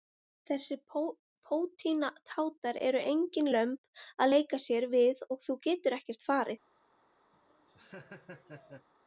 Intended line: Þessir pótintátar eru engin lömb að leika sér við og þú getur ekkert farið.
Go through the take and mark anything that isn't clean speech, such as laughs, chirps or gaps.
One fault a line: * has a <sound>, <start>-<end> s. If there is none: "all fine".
* has a laugh, 7.3-8.9 s